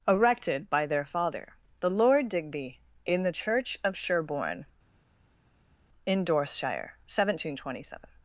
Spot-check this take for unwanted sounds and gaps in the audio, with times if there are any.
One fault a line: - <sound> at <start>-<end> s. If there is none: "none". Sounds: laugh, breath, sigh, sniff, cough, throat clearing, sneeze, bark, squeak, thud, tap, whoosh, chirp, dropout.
none